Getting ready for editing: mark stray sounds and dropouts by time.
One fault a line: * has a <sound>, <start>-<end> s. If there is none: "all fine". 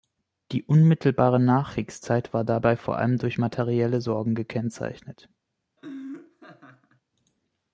* has a laugh, 5.8-7.0 s